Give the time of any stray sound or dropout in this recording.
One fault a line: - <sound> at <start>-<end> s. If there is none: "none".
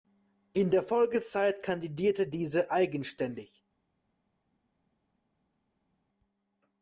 none